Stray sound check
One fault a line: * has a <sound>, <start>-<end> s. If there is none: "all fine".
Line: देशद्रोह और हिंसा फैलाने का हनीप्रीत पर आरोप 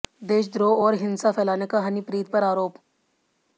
all fine